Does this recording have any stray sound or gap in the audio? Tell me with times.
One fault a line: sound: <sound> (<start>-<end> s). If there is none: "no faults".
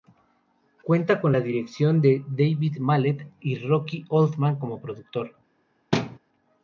sound: thud (5.9-6.2 s)